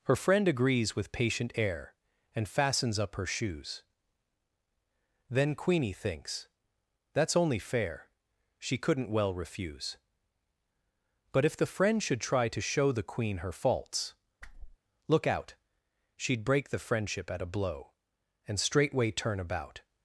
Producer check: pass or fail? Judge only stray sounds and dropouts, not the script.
fail